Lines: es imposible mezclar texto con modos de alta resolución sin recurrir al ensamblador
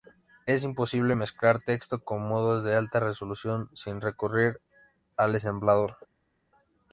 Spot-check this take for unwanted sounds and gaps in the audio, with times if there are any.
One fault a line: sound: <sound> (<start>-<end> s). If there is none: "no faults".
no faults